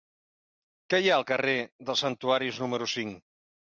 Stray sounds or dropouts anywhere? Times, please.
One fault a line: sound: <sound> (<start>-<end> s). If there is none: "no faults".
no faults